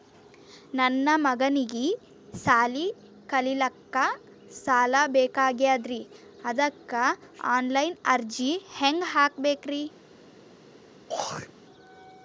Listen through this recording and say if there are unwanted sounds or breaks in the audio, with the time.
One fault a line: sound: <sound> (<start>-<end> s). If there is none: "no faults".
sound: throat clearing (11.1-11.5 s)